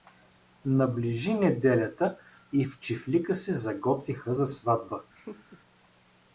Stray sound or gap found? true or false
true